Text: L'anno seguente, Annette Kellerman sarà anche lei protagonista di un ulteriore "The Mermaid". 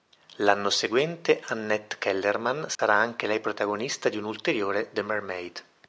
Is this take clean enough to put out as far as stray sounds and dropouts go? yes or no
no